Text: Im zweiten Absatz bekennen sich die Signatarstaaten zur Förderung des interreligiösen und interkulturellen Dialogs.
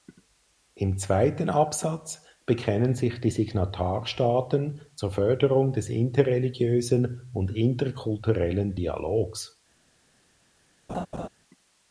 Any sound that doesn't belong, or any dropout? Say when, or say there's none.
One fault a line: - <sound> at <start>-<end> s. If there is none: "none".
- laugh at 10.9-11.3 s